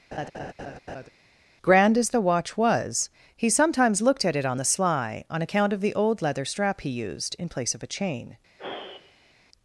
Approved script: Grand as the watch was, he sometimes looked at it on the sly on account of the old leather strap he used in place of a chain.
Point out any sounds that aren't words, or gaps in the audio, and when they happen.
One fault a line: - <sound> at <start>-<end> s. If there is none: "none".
- laugh at 0.1-1.1 s
- sigh at 8.6-9.3 s